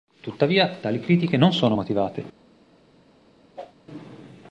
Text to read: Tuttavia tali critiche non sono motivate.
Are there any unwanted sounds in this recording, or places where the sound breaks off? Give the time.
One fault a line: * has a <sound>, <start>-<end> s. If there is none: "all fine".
* has a whoosh, 3.6-3.7 s